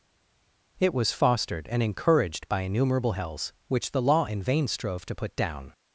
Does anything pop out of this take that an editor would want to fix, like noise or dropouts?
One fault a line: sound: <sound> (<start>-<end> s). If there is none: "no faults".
no faults